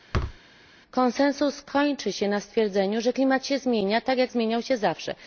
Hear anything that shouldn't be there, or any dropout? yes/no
yes